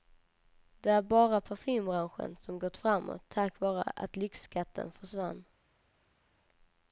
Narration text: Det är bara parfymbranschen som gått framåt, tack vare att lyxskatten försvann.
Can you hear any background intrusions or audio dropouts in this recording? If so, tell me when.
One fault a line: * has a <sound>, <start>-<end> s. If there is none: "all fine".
all fine